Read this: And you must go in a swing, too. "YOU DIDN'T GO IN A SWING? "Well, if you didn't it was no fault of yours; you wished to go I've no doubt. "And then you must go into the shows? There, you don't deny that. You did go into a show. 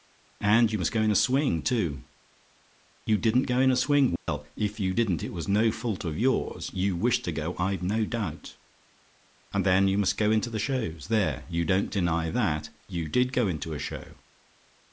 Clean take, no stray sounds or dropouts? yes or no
no